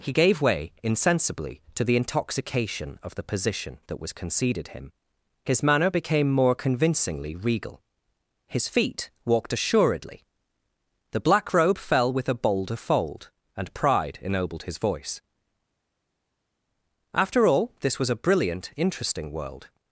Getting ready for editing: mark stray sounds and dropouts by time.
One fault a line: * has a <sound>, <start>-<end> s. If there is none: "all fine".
all fine